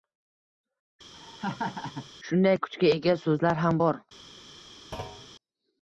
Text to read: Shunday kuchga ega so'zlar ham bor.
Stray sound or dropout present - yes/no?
yes